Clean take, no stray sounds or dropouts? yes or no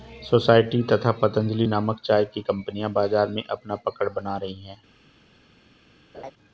no